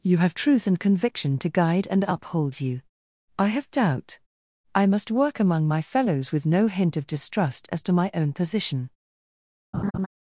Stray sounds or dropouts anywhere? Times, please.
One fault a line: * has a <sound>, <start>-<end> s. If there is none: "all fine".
* has a laugh, 9.7-10.1 s